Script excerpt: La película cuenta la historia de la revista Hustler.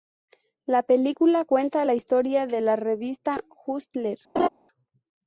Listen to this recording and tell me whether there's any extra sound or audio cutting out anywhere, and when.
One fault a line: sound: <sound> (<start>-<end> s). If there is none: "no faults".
sound: laugh (4.4-4.5 s)